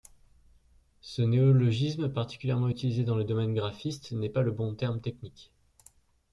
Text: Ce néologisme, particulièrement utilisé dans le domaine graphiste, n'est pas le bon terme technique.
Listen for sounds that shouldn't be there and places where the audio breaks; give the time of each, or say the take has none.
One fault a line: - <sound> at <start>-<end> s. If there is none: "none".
none